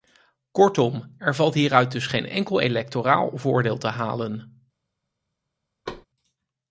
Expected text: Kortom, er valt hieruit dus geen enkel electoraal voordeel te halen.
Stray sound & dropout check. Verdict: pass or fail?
fail